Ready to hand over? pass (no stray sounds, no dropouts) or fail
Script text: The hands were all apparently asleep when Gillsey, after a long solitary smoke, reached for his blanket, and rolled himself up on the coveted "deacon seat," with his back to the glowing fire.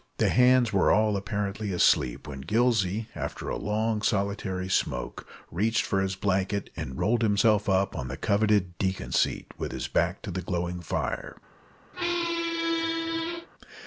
fail